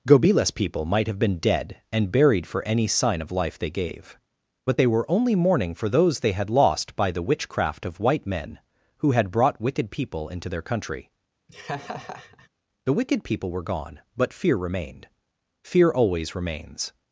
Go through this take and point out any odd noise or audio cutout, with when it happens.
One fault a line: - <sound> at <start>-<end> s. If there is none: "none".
- laugh at 11.5-12.5 s